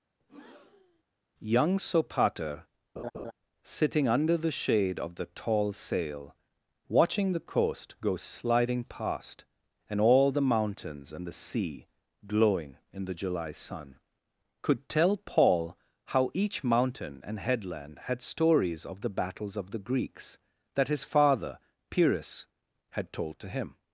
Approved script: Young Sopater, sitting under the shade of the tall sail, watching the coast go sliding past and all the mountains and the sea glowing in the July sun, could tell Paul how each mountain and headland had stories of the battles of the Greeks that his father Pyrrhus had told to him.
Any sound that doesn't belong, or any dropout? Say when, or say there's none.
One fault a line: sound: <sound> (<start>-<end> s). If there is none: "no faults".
sound: breath (0.2-1.0 s)
sound: laugh (3.0-3.3 s)